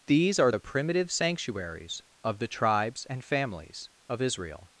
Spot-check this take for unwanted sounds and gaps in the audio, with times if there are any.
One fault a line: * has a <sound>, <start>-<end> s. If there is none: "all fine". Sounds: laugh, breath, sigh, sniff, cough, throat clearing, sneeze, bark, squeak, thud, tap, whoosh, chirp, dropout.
all fine